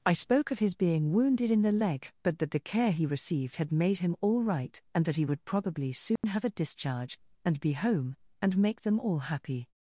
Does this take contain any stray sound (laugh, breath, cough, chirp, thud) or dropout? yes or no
yes